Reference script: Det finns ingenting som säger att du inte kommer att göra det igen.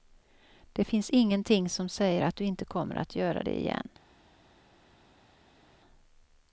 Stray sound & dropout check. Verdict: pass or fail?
pass